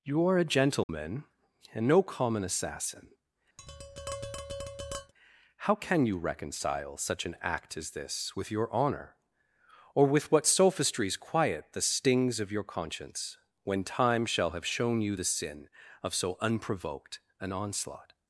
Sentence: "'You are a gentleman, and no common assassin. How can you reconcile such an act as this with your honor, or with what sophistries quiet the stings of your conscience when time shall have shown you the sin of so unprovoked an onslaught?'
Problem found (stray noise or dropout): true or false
true